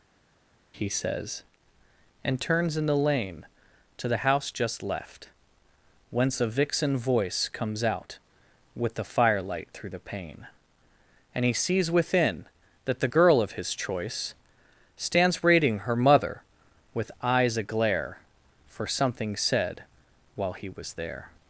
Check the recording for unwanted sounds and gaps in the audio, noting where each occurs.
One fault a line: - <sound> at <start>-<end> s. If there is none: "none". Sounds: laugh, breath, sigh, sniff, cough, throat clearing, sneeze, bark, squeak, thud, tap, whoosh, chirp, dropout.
none